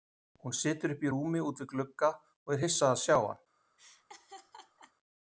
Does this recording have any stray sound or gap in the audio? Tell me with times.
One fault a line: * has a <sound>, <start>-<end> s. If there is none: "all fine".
* has a laugh, 3.8-4.9 s